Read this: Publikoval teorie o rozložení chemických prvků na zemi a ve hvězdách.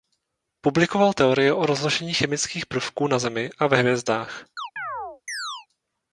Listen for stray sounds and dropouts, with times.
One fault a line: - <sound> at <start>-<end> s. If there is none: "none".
- chirp at 4.6-5.7 s